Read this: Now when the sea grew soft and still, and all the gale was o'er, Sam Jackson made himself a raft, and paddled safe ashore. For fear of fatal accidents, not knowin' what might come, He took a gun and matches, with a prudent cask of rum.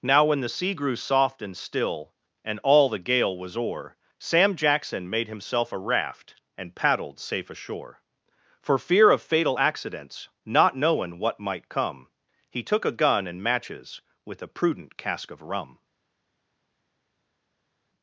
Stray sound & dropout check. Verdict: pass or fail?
pass